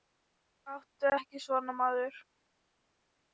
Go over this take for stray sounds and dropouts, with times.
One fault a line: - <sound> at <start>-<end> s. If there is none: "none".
none